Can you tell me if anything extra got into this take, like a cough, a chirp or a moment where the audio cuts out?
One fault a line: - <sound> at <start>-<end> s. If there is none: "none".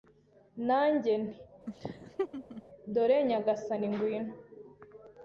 - laugh at 1.7-2.6 s